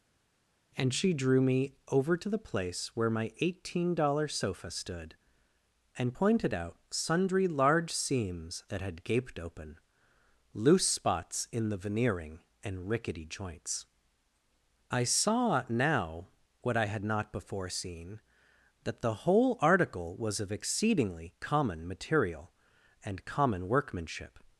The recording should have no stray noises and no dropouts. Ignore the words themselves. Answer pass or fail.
pass